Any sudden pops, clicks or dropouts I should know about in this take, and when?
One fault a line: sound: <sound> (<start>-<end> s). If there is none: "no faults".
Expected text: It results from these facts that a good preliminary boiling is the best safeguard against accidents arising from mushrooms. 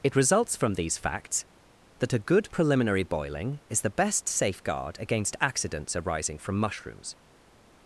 no faults